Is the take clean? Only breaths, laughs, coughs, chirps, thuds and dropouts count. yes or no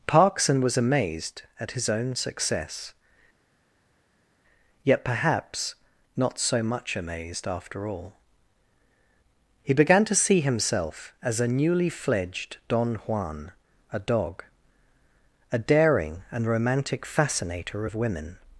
yes